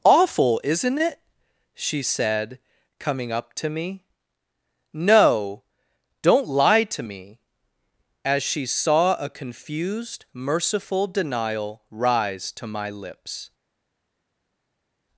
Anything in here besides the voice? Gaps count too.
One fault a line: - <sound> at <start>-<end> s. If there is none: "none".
none